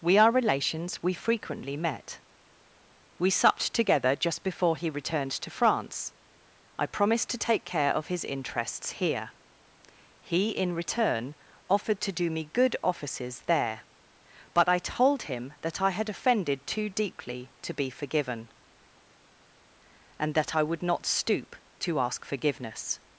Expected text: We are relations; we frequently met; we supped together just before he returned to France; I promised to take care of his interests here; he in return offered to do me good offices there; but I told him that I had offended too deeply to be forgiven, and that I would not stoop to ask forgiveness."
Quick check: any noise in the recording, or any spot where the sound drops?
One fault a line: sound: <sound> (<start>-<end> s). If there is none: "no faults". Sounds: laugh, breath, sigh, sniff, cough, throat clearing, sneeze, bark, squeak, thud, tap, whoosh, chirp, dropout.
no faults